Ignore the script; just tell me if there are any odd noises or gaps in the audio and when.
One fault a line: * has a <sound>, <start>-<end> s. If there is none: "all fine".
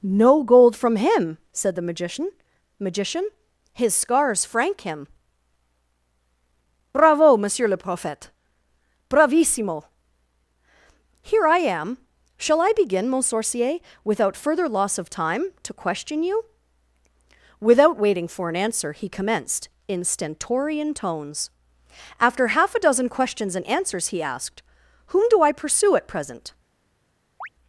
* has a chirp, 27.4-27.5 s